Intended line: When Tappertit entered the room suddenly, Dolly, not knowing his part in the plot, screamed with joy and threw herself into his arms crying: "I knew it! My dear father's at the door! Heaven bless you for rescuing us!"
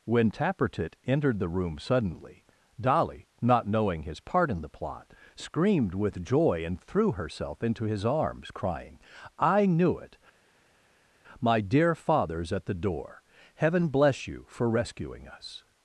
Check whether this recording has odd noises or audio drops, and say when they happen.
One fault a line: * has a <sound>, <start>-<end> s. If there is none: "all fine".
all fine